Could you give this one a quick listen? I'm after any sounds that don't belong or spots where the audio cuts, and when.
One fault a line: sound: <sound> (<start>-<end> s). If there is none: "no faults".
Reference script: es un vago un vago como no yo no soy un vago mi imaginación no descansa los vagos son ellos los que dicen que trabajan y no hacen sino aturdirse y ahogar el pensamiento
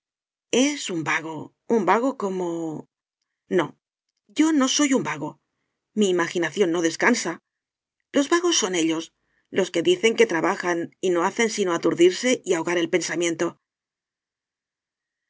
no faults